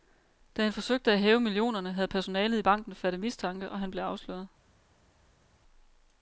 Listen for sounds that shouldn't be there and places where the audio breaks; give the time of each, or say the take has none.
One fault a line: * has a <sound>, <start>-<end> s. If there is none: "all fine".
all fine